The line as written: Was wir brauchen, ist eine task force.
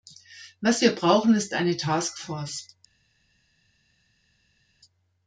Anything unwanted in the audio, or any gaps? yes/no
no